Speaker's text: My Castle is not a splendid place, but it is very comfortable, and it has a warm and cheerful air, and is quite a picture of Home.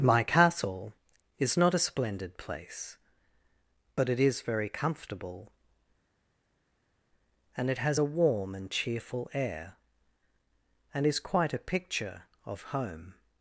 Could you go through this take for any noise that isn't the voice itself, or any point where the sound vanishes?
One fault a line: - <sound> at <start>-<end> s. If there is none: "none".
none